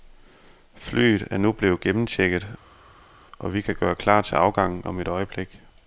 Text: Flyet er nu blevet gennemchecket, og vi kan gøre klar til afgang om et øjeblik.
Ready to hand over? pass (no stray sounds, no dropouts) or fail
pass